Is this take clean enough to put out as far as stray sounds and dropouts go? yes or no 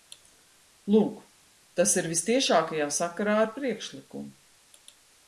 yes